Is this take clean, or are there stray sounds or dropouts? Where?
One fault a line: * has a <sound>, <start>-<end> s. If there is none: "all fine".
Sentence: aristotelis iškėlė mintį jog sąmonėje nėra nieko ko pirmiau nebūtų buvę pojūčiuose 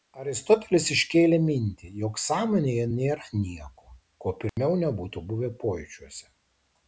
* has a dropout, 4.5-4.6 s